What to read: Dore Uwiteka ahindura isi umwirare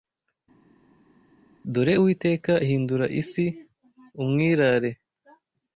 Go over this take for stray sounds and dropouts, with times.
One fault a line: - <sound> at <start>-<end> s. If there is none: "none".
none